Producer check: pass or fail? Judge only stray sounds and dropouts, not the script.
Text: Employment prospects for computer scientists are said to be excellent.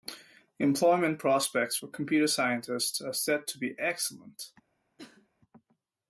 fail